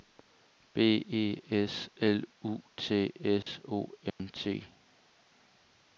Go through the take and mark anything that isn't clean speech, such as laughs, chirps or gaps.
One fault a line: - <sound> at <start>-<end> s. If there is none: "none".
- dropout at 3.4-3.5 s
- dropout at 4.1-4.2 s